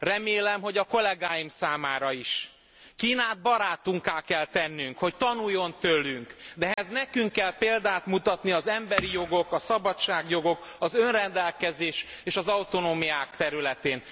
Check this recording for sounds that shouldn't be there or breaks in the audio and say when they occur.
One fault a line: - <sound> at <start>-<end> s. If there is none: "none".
- dropout at 6.7-6.8 s